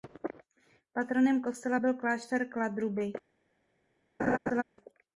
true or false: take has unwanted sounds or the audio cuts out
true